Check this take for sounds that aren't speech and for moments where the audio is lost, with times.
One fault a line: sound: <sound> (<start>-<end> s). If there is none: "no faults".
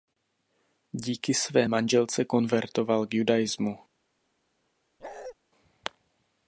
sound: bark (5.0-5.3 s)